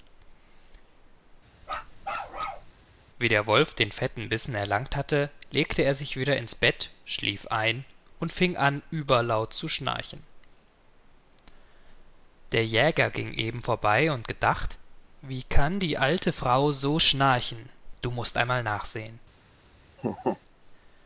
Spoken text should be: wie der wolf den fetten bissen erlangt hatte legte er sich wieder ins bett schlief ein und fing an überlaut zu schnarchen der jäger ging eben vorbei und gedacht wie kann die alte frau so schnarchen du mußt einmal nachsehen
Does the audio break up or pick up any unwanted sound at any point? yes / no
yes